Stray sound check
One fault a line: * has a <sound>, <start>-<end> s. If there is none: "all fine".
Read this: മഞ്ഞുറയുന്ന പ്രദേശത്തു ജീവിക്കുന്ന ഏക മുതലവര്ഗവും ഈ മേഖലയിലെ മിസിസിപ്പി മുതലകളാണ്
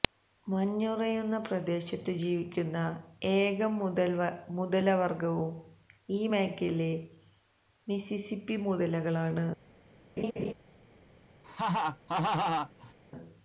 * has a laugh, 10.2-10.5 s
* has a laugh, 11.4-12.9 s